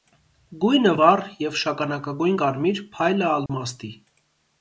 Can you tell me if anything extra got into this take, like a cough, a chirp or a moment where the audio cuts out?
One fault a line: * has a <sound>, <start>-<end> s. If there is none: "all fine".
* has a dropout, 3.5-3.5 s